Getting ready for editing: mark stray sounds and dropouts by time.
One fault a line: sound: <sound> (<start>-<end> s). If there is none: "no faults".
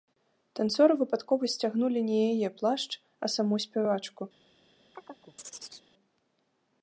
sound: chirp (4.9-5.9 s)